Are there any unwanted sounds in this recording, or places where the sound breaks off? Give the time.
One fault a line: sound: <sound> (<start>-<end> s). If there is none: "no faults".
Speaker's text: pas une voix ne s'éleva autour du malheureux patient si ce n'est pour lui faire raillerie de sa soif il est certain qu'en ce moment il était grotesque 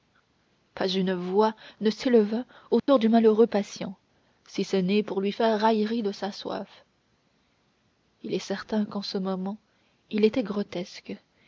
sound: dropout (2.8-2.9 s)